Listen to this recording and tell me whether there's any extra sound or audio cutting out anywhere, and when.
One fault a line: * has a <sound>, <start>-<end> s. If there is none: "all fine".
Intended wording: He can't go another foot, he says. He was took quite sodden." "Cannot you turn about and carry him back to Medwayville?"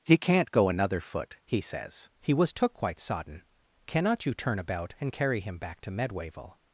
all fine